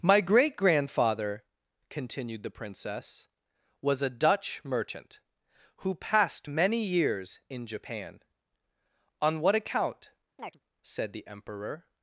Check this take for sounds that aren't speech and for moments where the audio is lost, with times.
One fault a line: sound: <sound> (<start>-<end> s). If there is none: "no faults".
sound: chirp (10.4-10.6 s)